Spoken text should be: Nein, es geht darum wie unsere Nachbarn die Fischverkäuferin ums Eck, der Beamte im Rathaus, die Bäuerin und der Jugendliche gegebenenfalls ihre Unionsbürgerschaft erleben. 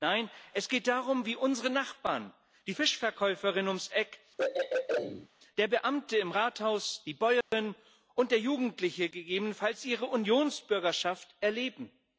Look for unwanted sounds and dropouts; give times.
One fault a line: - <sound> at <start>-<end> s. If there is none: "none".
- throat clearing at 4.4-5.3 s
- dropout at 7.4-7.5 s